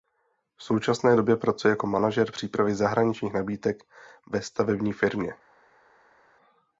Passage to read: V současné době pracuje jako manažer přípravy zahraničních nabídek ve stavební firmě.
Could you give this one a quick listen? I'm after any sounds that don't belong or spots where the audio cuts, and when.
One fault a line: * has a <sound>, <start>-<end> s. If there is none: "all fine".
all fine